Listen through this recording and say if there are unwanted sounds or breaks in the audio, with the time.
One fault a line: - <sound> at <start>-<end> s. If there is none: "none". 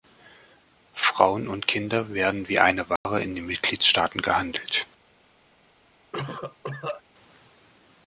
- dropout at 3.0-3.1 s
- cough at 6.1-7.0 s